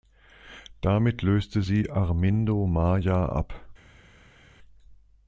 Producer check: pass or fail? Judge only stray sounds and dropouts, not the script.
pass